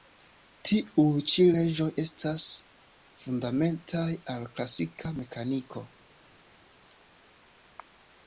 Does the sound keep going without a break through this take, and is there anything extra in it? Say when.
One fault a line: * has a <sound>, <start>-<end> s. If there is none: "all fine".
all fine